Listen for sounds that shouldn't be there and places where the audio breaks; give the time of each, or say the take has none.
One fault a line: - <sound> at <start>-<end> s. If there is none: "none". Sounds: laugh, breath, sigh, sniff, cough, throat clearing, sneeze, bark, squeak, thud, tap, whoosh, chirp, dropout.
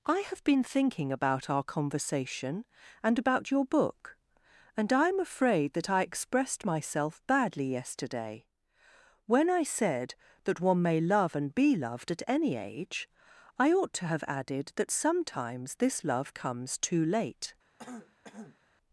- throat clearing at 17.8-18.6 s